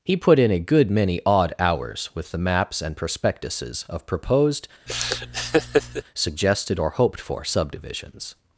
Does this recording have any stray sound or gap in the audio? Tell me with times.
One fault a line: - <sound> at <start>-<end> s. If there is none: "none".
- laugh at 4.9-6.0 s